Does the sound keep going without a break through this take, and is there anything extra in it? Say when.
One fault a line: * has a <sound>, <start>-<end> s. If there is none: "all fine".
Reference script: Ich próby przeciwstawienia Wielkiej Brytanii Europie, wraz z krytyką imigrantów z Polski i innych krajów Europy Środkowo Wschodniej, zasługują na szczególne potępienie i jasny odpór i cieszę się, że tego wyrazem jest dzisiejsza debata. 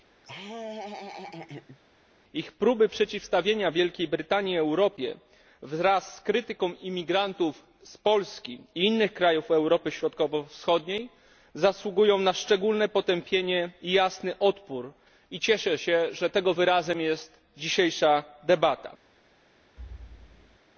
* has a laugh, 0.2-1.8 s
* has a thud, 19.8-20.6 s